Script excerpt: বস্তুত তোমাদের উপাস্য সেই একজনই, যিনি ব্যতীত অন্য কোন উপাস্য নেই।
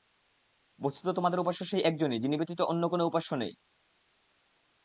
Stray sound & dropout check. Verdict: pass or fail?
pass